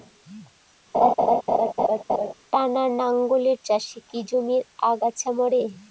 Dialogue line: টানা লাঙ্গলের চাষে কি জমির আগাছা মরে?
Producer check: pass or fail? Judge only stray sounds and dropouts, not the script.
fail